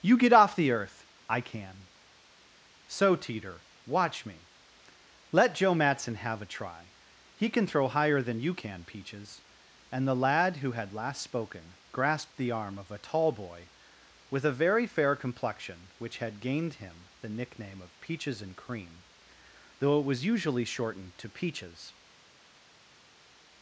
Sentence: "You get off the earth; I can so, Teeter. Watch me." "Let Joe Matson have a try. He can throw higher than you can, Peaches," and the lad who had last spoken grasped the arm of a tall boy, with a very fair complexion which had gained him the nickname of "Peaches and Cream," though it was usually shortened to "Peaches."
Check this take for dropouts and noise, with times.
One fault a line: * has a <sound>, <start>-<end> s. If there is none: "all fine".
all fine